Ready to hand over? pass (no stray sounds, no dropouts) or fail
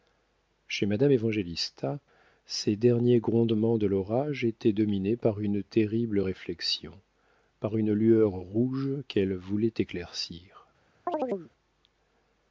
fail